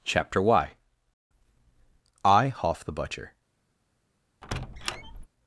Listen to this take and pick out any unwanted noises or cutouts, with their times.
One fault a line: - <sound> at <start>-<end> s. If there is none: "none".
- squeak at 4.4-5.3 s